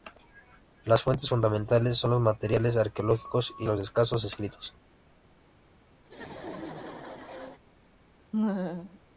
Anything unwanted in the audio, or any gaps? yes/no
yes